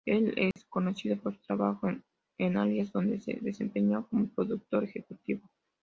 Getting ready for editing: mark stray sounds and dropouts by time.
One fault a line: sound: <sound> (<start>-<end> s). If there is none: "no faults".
sound: dropout (0.5-0.6 s)